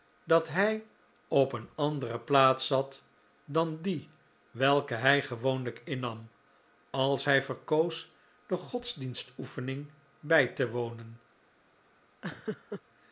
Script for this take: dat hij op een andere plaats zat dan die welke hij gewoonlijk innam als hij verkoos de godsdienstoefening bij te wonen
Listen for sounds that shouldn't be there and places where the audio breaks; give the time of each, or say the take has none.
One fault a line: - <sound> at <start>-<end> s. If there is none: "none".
- laugh at 12.2-12.8 s